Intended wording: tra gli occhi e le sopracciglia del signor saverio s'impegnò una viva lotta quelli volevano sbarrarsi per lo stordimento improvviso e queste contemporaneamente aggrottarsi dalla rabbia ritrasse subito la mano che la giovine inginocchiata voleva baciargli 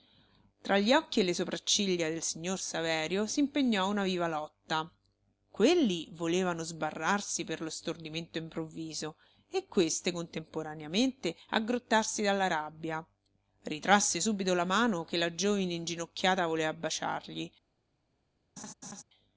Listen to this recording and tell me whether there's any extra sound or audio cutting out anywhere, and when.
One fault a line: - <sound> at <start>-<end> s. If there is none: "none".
- laugh at 18.6-19.0 s